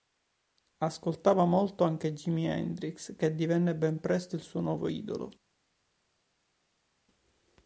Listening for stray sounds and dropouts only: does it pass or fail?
pass